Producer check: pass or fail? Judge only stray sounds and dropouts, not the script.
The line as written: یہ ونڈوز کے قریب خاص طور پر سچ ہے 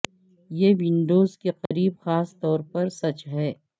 fail